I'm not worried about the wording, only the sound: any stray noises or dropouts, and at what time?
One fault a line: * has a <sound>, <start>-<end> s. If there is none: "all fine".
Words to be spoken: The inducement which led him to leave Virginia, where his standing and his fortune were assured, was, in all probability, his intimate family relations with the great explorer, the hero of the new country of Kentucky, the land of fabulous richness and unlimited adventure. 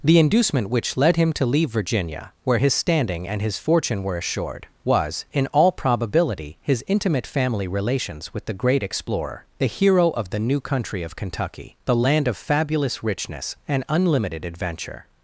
all fine